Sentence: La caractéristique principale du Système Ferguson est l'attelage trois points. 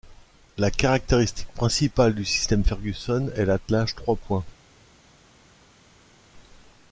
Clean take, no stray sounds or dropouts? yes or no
yes